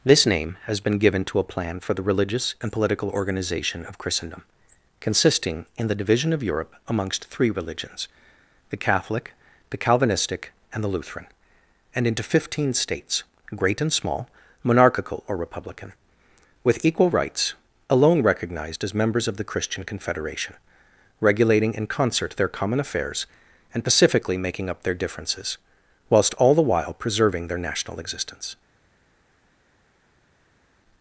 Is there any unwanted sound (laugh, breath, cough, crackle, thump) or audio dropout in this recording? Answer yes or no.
no